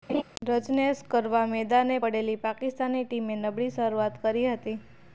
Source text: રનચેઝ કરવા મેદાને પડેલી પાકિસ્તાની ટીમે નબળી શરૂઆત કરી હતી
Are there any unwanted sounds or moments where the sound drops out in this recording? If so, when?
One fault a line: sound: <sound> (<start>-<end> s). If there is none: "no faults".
sound: laugh (0.1-0.2 s)